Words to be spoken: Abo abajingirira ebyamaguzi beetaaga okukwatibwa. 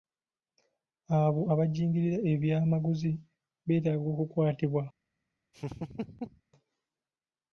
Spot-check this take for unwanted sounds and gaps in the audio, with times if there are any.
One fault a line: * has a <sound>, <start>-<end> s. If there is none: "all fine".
* has a laugh, 5.5-6.4 s